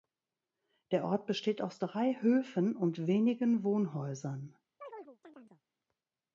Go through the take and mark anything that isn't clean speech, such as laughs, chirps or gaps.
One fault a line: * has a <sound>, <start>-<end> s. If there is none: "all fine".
* has a chirp, 4.8-5.6 s